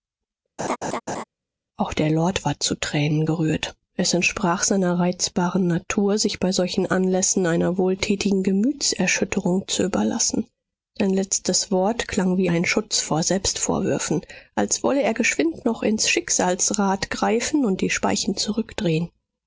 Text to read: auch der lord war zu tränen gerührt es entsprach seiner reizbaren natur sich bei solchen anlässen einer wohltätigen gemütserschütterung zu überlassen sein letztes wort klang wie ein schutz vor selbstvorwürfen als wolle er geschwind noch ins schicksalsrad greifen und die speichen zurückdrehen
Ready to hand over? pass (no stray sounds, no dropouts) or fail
fail